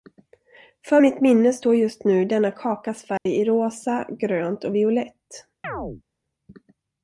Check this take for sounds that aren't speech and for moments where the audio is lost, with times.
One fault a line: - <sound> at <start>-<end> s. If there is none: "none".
- dropout at 3.2-3.3 s
- chirp at 5.6-6.0 s